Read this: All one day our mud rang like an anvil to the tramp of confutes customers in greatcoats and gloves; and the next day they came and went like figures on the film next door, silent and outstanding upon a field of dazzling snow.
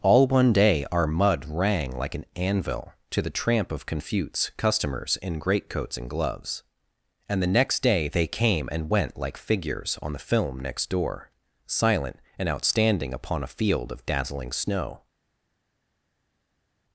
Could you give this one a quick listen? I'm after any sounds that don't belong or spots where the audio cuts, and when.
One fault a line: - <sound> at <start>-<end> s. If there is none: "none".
none